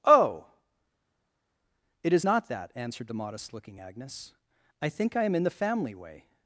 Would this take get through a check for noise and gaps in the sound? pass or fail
pass